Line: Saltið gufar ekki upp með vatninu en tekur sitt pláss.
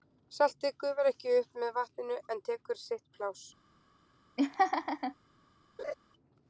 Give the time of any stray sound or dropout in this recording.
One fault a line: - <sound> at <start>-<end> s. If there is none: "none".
- laugh at 4.4-5.2 s
- laugh at 5.8-5.9 s